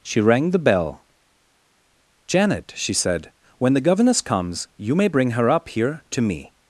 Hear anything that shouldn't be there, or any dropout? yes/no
no